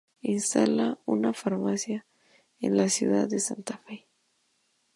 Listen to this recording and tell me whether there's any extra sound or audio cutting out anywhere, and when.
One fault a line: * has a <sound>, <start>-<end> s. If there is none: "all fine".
all fine